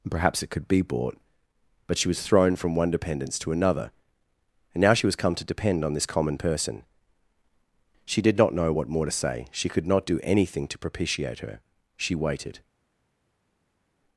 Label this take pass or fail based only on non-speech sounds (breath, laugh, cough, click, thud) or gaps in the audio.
pass